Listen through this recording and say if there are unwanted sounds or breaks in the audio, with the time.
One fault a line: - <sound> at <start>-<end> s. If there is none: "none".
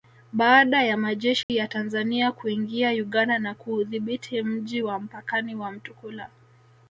- dropout at 1.4-1.5 s